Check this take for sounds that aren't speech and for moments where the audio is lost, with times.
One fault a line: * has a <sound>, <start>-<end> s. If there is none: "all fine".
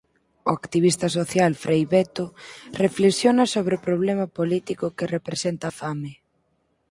all fine